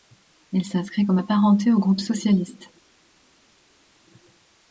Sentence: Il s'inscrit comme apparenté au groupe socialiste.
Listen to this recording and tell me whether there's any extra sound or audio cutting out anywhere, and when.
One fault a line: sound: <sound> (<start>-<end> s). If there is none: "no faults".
no faults